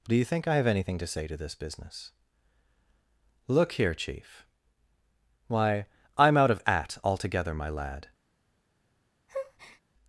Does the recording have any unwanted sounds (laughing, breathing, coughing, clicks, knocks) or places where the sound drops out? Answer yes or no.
yes